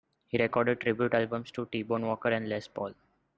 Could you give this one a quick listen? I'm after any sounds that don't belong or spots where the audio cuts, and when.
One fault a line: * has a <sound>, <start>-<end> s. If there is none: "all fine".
all fine